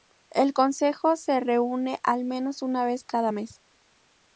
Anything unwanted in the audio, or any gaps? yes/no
no